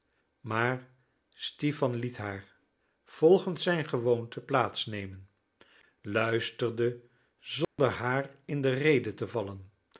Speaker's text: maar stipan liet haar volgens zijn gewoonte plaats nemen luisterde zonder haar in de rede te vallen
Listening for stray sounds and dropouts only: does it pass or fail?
fail